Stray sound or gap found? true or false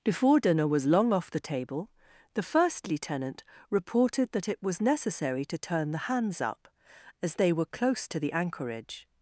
false